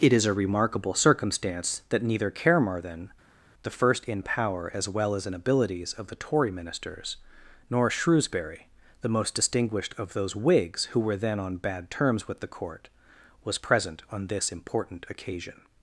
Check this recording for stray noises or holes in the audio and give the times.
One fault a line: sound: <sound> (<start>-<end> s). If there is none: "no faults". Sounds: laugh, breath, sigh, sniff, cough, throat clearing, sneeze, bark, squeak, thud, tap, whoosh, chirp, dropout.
no faults